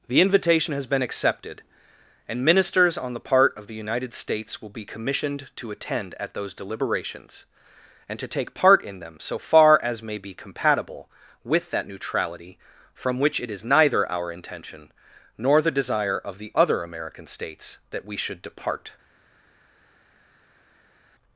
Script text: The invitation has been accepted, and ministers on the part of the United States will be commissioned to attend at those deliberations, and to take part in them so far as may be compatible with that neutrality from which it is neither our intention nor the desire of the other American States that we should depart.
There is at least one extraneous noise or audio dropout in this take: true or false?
false